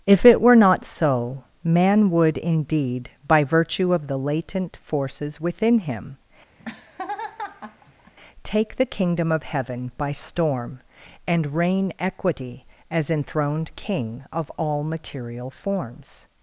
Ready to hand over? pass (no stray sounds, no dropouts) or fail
fail